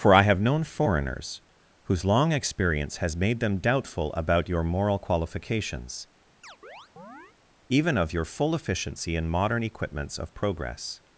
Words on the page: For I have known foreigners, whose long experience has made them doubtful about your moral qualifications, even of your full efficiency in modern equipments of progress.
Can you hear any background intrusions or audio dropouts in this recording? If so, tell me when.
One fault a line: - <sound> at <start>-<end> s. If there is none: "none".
- chirp at 6.4-7.4 s